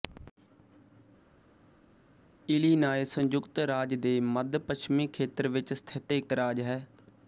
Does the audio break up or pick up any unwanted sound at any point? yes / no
no